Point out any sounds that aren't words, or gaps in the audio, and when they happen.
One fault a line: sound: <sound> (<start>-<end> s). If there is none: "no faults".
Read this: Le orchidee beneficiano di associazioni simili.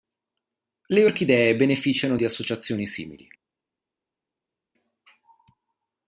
no faults